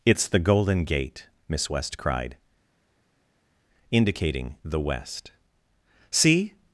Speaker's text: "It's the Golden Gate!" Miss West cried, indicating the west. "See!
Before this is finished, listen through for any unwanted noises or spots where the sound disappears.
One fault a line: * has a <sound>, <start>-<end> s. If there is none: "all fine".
all fine